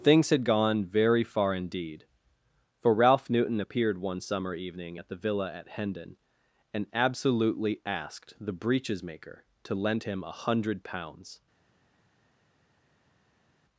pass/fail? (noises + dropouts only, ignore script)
pass